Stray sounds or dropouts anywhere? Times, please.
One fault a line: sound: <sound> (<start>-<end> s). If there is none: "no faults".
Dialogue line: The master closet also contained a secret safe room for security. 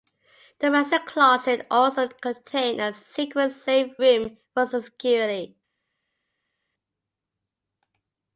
no faults